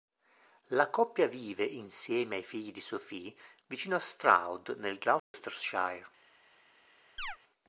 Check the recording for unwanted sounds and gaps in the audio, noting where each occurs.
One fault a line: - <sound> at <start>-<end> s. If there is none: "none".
- dropout at 5.2-5.3 s
- chirp at 7.2-7.4 s